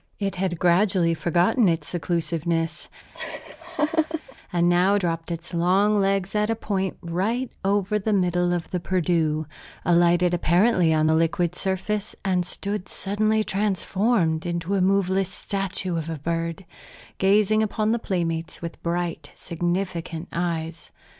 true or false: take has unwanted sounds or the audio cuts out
true